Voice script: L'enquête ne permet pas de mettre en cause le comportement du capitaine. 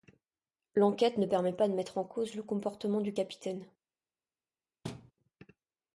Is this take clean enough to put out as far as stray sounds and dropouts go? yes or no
no